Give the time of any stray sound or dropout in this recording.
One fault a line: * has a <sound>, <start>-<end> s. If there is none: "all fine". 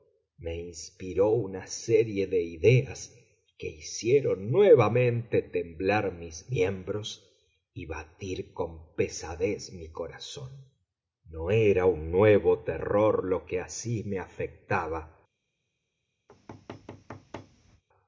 * has a thud, 16.3-17.8 s